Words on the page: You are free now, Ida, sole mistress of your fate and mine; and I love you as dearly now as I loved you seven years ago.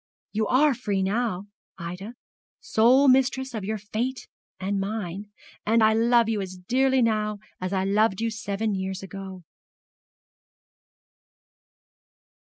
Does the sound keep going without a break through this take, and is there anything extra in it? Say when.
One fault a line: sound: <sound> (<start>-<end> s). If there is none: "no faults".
no faults